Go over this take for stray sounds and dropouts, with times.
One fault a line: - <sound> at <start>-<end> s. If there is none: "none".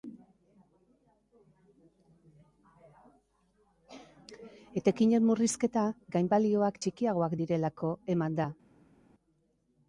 none